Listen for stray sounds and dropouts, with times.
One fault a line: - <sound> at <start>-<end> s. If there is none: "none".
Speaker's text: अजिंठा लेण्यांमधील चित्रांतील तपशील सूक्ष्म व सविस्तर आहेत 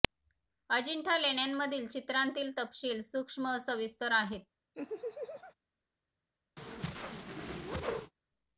- laugh at 4.7-5.5 s
- whoosh at 6.6-8.1 s